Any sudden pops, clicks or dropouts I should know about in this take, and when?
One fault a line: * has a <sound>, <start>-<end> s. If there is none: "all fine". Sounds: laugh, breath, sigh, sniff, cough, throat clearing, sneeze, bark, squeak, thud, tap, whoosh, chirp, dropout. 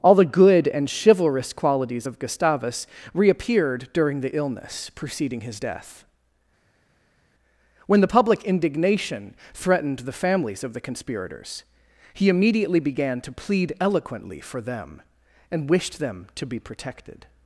all fine